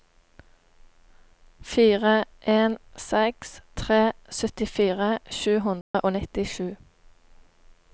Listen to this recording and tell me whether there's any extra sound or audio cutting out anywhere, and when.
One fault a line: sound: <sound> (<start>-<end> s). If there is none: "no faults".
sound: dropout (5.8-5.9 s)